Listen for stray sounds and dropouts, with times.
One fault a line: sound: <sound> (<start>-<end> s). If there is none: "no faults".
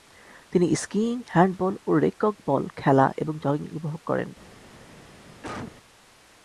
sound: cough (5.4-5.8 s)